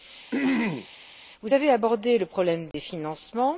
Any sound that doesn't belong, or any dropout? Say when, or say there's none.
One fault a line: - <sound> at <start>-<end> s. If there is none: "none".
- throat clearing at 0.3-0.9 s
- dropout at 2.7-2.7 s